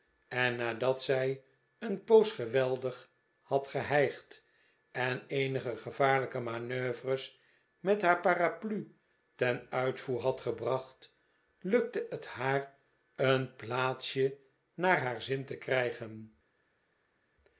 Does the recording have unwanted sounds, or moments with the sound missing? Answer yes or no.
no